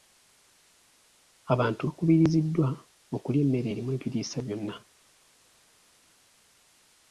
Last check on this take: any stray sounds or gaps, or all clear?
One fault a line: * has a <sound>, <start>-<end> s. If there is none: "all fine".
all fine